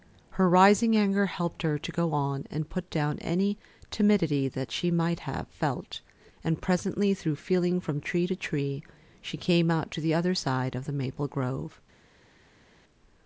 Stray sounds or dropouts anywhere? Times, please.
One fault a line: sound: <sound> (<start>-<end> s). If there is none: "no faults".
no faults